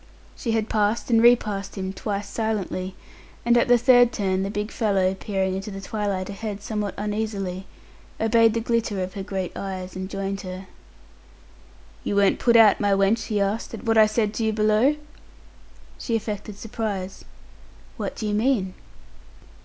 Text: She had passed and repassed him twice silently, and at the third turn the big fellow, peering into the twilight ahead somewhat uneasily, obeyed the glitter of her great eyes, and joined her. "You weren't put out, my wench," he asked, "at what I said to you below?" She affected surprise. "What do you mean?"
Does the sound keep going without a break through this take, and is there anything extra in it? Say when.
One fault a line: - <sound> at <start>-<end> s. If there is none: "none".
none